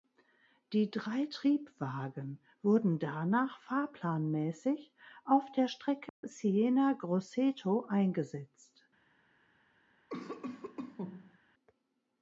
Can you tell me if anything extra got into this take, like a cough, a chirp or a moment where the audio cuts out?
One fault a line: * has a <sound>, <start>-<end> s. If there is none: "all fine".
* has a dropout, 6.1-6.2 s
* has a cough, 10.1-11.4 s